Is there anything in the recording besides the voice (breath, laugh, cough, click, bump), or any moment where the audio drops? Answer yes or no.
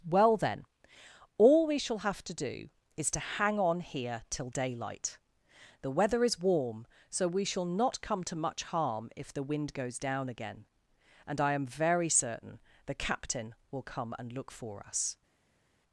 no